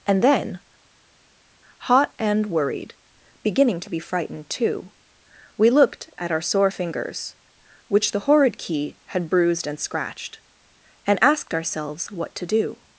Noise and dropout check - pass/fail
pass